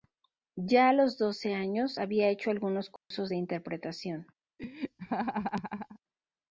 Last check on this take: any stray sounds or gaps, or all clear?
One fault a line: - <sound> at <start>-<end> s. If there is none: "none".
- dropout at 3.0-3.1 s
- laugh at 4.6-6.0 s